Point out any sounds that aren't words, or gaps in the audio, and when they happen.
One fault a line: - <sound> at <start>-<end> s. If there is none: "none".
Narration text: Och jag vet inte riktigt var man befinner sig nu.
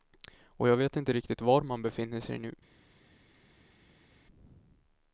none